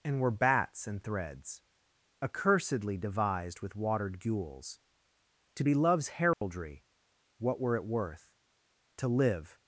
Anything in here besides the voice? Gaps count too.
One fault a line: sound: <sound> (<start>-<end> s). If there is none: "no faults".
sound: dropout (6.3-6.4 s)